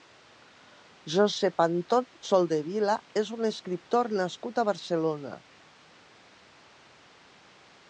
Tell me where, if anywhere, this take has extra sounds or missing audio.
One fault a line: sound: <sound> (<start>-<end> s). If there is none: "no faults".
no faults